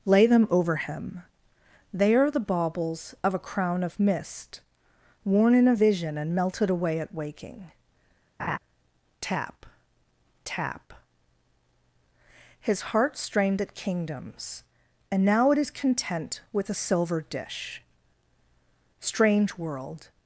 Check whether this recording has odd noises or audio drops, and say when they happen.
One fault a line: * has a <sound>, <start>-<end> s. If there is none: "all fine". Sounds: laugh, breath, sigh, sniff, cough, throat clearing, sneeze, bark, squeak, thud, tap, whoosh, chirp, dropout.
* has a laugh, 8.4-8.6 s